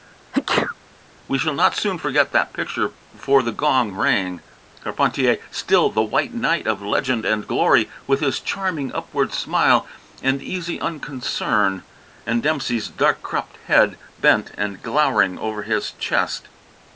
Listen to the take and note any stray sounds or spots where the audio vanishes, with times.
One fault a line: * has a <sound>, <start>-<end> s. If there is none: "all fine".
* has a sneeze, 0.3-0.8 s